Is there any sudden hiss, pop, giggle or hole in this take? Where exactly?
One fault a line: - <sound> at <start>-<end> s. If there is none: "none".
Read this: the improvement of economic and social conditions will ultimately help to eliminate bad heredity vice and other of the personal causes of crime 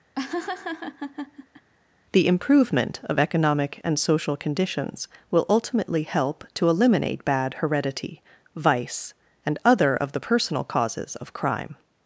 - laugh at 0.1-1.7 s